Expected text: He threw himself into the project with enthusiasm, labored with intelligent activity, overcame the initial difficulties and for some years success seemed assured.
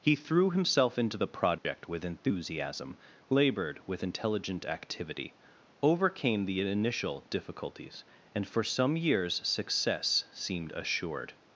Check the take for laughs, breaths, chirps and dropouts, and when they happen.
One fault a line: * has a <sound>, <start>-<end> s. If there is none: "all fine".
* has a dropout, 1.6-1.6 s